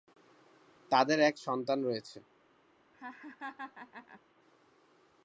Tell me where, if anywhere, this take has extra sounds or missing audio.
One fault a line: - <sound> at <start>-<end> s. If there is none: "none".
- laugh at 2.9-4.2 s